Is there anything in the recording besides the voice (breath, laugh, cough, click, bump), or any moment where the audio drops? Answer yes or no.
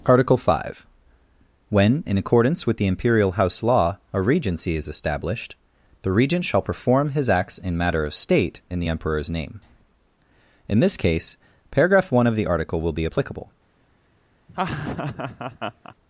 yes